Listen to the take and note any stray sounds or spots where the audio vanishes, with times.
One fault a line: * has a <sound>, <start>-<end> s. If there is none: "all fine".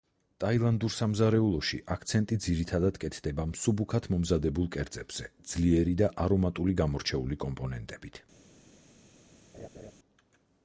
* has a laugh, 9.5-9.9 s